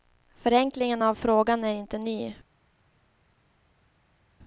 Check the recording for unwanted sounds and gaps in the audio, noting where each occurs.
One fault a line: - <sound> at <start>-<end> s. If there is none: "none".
none